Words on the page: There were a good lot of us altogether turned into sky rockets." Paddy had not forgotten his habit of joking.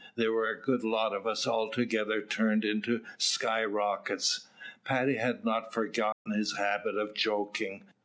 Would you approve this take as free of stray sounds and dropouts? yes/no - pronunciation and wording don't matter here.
no